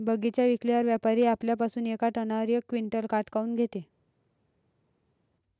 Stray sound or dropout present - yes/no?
no